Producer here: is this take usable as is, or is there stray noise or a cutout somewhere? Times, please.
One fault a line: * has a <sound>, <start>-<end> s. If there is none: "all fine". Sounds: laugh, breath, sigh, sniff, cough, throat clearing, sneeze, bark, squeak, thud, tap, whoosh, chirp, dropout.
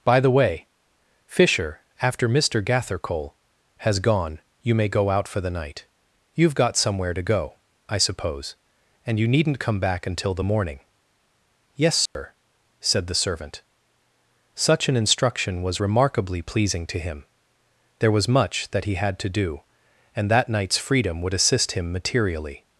* has a dropout, 12.1-12.2 s